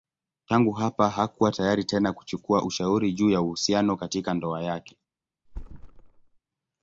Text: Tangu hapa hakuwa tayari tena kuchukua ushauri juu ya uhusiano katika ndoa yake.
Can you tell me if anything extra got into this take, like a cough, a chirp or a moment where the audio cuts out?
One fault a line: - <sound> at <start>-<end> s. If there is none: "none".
- thud at 5.5-6.4 s